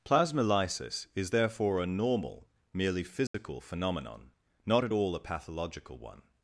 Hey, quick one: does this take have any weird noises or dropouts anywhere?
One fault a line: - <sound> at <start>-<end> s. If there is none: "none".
- dropout at 3.3-3.3 s